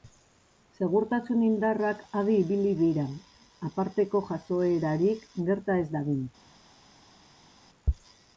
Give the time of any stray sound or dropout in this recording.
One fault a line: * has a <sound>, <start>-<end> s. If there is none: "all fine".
all fine